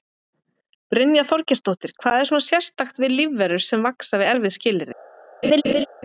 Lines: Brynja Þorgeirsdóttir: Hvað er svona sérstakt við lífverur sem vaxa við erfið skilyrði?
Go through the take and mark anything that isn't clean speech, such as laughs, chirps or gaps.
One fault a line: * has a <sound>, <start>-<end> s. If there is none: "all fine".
* has a laugh, 5.4-5.9 s